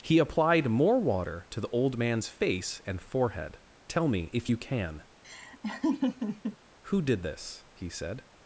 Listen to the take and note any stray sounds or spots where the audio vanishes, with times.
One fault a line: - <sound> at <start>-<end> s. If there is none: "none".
- laugh at 5.2-6.6 s